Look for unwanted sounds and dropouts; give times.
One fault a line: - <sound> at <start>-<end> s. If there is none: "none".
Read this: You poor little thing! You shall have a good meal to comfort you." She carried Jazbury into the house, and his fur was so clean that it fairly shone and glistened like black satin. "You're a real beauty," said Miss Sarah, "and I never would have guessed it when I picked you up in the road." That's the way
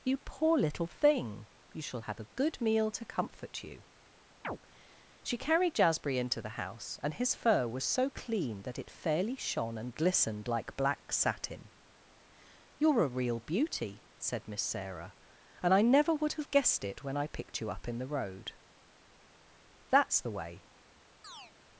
- chirp at 4.4-4.6 s
- chirp at 21.2-21.5 s